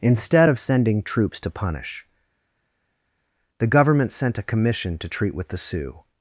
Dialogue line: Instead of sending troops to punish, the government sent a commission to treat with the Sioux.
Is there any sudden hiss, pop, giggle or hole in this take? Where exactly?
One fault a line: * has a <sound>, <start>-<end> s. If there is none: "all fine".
all fine